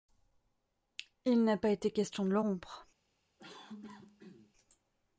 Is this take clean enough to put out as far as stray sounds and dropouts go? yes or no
no